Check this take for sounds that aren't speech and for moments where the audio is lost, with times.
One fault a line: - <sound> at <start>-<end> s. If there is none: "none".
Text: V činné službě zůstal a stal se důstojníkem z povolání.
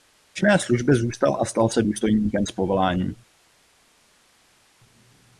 none